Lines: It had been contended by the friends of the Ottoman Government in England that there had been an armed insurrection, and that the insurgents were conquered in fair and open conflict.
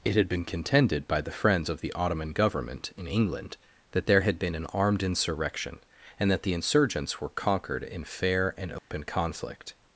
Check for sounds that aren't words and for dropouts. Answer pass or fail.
fail